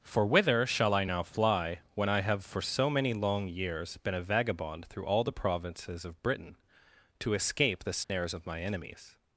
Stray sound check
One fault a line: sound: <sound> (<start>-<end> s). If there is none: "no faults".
sound: dropout (8.0-8.1 s)